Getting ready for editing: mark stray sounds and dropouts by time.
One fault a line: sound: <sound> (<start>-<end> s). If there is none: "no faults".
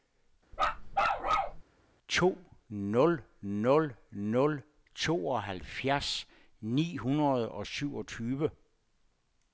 sound: bark (0.5-1.6 s)